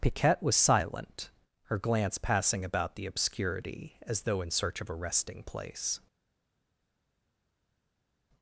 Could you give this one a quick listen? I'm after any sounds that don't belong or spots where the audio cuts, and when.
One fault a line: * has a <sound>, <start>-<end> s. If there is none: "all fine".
all fine